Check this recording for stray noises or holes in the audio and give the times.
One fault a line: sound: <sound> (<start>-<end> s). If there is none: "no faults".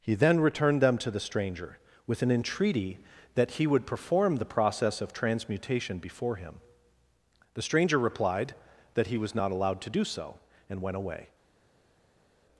no faults